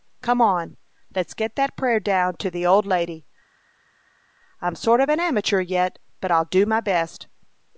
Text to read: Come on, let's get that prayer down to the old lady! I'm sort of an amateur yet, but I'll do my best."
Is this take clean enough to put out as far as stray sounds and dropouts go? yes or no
yes